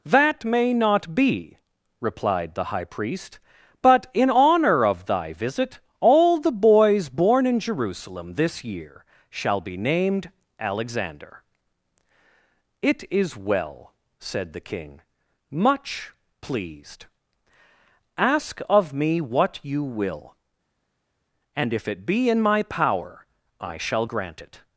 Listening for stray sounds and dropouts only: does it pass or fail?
pass